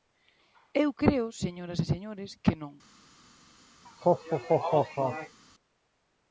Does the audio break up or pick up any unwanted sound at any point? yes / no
yes